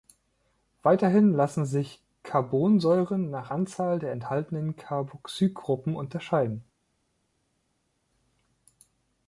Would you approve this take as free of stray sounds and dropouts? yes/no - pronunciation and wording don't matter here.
yes